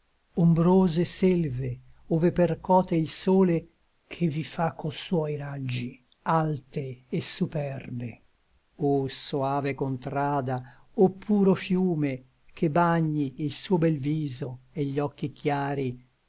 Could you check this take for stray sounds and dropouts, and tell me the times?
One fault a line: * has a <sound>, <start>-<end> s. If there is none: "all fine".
all fine